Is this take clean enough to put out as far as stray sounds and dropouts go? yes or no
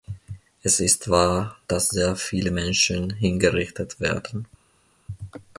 yes